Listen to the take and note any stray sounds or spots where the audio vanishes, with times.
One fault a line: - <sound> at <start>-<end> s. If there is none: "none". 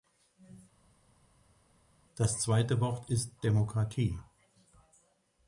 none